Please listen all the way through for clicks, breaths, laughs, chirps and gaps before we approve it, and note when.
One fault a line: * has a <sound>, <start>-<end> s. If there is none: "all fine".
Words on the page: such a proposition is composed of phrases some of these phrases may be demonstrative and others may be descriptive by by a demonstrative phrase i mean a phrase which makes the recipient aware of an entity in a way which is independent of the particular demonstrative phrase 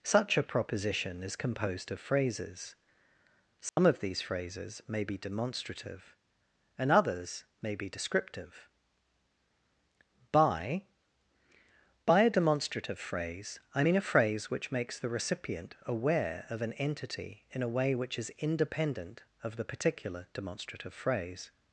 * has a dropout, 3.7-3.8 s